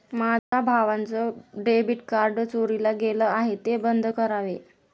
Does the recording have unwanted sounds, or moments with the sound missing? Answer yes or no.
yes